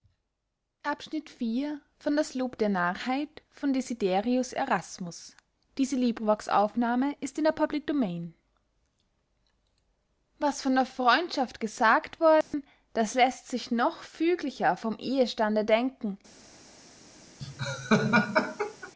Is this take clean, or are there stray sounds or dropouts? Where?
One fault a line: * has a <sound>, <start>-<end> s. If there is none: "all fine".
* has a dropout, 12.4-12.5 s
* has a laugh, 17.4-18.9 s